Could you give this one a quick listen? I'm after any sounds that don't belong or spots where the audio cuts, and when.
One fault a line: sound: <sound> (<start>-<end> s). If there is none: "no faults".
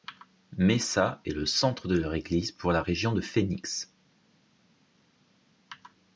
no faults